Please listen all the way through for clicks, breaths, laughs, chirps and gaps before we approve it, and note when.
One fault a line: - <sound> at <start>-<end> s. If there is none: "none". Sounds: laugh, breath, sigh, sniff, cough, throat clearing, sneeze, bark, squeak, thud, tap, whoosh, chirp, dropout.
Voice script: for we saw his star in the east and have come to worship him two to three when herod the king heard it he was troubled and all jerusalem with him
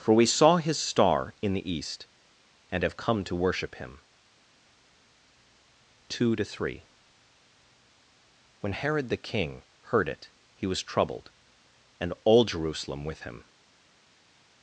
none